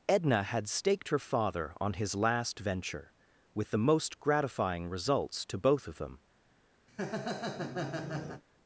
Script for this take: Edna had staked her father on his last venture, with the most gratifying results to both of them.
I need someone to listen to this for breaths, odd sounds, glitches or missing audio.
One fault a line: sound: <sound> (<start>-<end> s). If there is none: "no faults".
sound: laugh (6.9-8.4 s)